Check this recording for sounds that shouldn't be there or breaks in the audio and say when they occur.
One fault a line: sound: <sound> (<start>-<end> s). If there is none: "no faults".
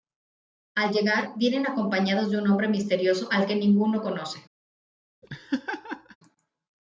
sound: laugh (5.2-6.2 s)